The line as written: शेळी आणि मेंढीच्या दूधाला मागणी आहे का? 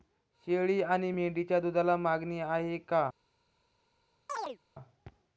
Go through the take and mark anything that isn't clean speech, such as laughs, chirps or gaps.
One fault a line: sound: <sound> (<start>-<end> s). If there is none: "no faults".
sound: chirp (4.3-4.6 s)